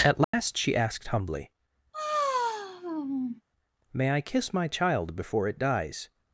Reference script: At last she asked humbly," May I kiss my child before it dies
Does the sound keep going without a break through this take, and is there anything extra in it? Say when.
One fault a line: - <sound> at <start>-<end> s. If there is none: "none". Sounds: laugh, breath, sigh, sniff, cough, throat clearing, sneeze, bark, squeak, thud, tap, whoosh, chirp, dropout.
- dropout at 0.2-0.3 s
- sigh at 1.9-3.4 s